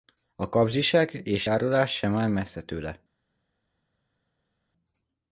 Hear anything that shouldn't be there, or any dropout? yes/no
no